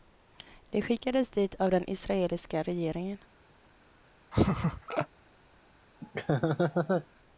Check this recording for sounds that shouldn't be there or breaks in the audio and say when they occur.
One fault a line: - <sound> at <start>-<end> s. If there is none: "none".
- laugh at 4.3-5.1 s
- laugh at 6.0-7.1 s